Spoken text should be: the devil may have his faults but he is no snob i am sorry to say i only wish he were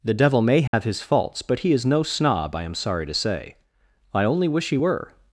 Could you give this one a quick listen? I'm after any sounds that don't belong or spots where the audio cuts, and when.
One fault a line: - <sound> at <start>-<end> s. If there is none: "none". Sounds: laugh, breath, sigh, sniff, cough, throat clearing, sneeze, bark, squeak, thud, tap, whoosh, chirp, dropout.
- dropout at 0.7-0.7 s